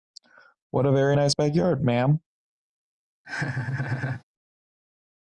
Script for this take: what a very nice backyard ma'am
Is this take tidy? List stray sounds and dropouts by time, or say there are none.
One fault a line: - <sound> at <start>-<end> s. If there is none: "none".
- laugh at 3.2-4.2 s